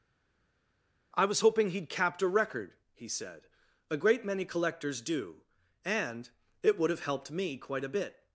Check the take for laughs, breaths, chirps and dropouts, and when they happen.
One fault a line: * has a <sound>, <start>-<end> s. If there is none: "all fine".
all fine